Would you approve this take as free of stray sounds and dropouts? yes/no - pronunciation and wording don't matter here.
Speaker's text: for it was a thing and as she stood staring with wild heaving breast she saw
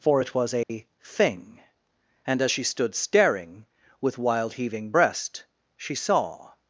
no